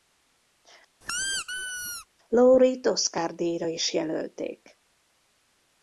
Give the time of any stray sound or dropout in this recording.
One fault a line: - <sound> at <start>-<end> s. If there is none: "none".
- squeak at 1.0-2.1 s